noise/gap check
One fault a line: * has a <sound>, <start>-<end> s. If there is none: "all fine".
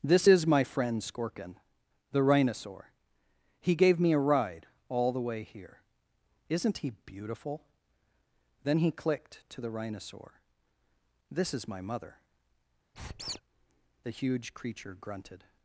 * has a squeak, 12.9-13.4 s